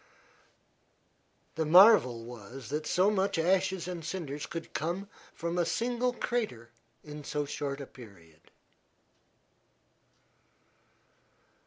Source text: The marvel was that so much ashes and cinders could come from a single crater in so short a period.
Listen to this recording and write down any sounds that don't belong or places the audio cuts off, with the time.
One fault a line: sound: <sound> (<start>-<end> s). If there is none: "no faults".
no faults